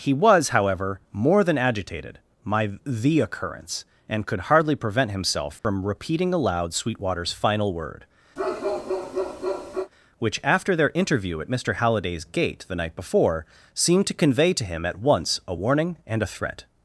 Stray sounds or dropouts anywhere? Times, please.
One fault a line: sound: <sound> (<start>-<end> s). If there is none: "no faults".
sound: dropout (5.6-5.6 s)
sound: bark (8.4-9.9 s)